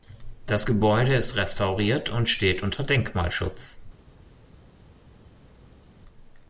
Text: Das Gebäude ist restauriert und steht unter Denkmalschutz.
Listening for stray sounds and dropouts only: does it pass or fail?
pass